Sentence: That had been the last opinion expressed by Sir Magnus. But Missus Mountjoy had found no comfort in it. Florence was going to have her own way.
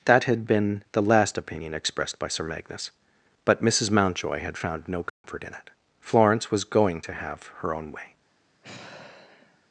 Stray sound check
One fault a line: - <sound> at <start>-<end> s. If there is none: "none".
- dropout at 5.1-5.2 s
- sigh at 8.6-9.7 s